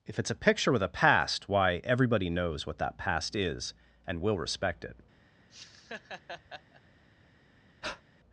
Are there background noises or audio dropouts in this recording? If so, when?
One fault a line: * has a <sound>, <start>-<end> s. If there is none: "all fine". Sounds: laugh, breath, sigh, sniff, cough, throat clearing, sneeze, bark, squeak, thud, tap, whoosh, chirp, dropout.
* has a laugh, 5.5-6.8 s
* has a breath, 7.8-8.0 s